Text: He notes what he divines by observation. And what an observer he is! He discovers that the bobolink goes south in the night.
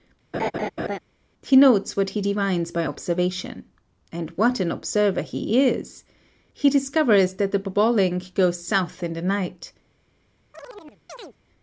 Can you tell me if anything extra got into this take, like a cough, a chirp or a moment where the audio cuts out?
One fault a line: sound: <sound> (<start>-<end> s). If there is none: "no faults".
sound: laugh (0.3-1.0 s)
sound: chirp (10.5-11.4 s)